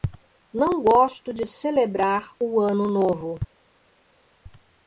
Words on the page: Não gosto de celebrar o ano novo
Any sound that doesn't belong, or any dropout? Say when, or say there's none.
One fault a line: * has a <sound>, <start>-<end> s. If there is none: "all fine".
all fine